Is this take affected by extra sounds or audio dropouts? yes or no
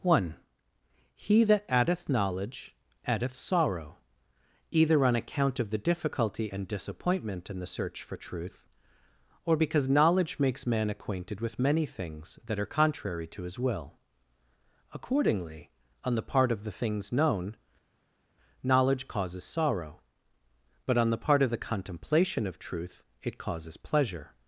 no